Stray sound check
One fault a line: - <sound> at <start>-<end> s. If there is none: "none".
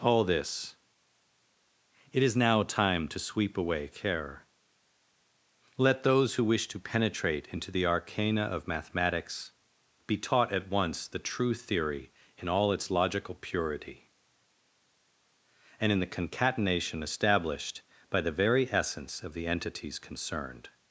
none